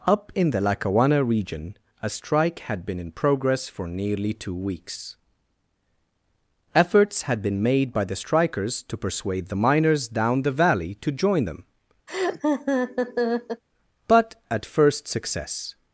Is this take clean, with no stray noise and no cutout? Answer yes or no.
no